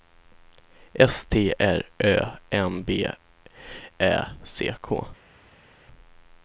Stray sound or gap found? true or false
false